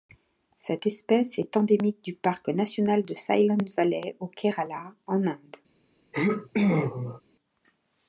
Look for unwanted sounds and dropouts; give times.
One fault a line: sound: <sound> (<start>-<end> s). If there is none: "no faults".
sound: sneeze (6.1-7.2 s)